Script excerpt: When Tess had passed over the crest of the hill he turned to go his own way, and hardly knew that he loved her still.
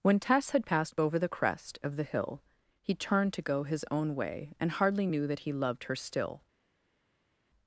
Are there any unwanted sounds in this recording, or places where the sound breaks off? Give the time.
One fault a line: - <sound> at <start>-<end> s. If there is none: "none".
none